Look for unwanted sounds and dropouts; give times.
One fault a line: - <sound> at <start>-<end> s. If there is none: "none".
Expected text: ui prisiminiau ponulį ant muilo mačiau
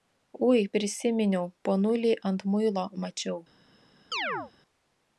- chirp at 4.1-4.5 s